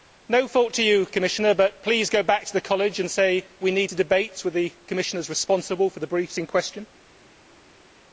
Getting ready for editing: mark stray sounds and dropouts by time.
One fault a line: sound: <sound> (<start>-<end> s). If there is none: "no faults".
no faults